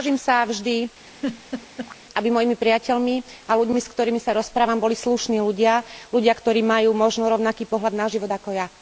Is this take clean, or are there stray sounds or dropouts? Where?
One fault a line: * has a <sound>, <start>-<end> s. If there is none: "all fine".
* has a laugh, 1.1-2.0 s